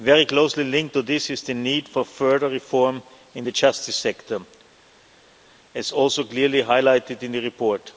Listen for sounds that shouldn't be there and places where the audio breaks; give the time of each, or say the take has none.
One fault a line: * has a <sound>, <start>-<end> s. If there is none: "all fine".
all fine